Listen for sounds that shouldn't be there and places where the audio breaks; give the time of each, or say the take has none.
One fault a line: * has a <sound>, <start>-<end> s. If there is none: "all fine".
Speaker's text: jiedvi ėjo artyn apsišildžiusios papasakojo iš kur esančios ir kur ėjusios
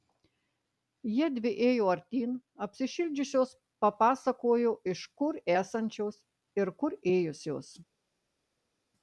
all fine